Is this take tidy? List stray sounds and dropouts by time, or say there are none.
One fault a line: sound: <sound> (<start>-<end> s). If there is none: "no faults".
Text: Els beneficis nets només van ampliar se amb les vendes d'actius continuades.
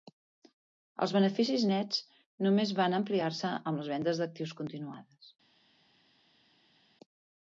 no faults